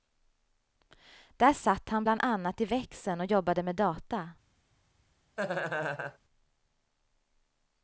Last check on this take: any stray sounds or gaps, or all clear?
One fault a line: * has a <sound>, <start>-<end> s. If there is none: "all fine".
* has a laugh, 5.4-6.2 s